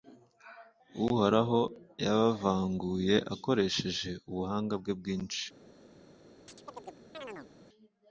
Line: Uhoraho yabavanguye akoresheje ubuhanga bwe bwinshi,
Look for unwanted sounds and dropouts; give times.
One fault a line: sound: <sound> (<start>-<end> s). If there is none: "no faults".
sound: chirp (6.5-7.5 s)